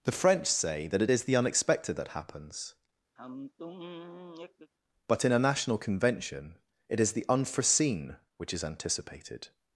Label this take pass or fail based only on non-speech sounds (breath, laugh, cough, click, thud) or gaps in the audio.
fail